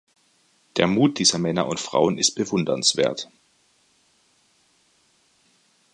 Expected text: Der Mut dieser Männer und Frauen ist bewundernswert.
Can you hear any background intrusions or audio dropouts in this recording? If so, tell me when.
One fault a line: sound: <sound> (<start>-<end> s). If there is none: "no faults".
no faults